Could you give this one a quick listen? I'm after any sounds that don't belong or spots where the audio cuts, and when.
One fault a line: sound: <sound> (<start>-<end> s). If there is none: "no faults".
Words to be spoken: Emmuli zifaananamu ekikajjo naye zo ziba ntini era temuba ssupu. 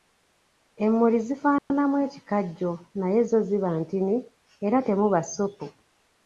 sound: dropout (1.6-1.7 s)